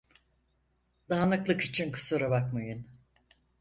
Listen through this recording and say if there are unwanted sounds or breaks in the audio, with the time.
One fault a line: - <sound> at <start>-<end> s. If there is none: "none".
none